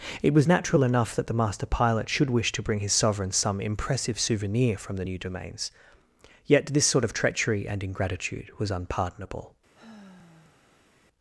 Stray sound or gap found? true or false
true